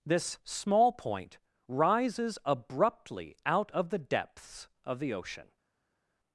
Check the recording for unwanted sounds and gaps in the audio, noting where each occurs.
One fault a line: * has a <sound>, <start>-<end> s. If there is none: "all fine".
all fine